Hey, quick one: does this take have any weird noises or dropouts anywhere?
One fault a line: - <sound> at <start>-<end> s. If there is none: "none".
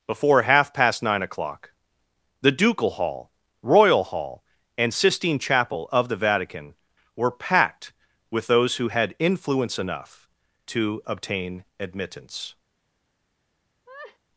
- laugh at 13.9-14.2 s